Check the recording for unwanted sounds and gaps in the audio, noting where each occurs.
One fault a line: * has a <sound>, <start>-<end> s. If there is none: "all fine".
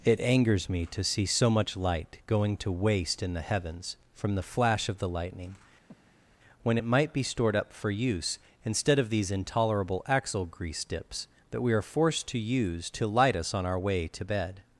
* has a breath, 5.9-6.4 s